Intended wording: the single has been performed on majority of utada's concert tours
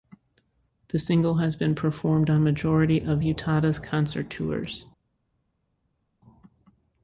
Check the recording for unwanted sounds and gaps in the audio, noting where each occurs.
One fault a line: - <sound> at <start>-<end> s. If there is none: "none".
none